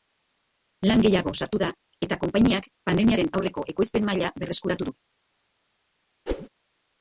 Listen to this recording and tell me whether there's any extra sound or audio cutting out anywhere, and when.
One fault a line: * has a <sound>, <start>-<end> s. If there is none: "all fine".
* has a whoosh, 6.3-6.5 s